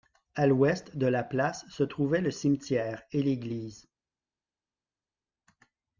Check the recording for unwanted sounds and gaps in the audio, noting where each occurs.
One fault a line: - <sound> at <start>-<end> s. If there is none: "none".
none